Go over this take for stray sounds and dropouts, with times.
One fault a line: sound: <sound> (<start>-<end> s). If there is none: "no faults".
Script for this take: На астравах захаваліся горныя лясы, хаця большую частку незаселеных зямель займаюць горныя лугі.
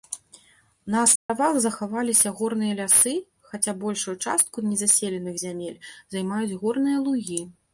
sound: dropout (1.2-1.3 s)